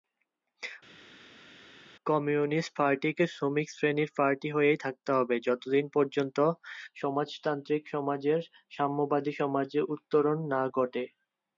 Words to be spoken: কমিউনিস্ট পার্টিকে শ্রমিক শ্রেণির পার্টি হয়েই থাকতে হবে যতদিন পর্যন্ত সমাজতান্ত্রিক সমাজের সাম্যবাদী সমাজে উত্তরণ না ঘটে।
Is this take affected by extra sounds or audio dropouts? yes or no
no